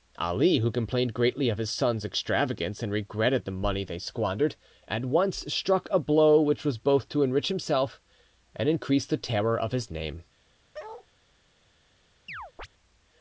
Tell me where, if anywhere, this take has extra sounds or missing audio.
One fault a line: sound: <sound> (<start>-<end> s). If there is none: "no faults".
sound: bark (10.7-11.1 s)
sound: chirp (12.3-12.7 s)